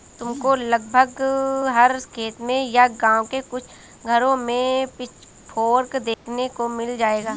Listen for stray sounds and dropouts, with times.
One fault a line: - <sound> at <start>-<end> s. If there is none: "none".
- dropout at 6.1-6.3 s